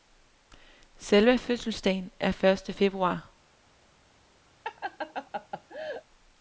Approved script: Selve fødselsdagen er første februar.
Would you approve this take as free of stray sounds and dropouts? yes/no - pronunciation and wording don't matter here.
no